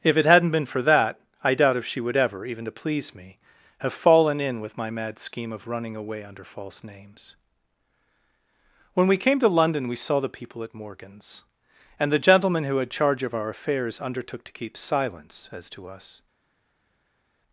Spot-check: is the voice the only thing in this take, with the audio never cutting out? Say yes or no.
yes